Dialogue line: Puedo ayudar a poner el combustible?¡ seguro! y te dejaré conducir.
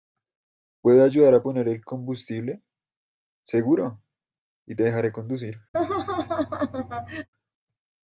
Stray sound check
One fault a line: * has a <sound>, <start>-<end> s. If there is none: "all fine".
* has a laugh, 5.7-7.3 s